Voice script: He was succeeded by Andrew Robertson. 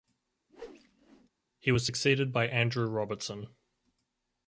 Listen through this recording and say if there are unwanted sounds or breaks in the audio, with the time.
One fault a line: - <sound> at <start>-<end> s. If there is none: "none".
- whoosh at 0.5-1.3 s